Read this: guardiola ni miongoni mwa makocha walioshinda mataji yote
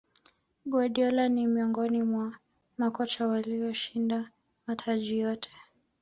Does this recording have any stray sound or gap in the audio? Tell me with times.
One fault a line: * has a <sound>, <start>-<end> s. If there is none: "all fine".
all fine